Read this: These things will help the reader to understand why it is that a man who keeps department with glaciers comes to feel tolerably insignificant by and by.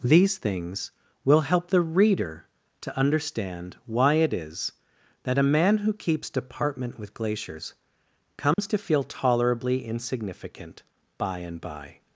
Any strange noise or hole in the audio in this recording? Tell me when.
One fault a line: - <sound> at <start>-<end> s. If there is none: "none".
- dropout at 8.5-8.6 s